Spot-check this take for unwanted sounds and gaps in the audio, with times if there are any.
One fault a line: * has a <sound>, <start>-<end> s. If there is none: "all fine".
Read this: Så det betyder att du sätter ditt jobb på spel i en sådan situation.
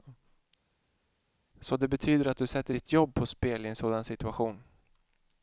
all fine